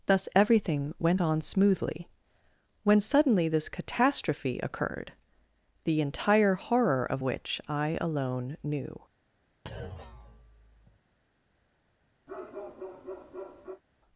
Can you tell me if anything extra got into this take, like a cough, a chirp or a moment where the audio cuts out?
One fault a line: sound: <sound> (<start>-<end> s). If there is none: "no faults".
sound: thud (9.7-11.0 s)
sound: bark (12.3-13.8 s)